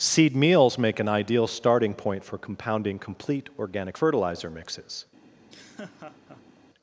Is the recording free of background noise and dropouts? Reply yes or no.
no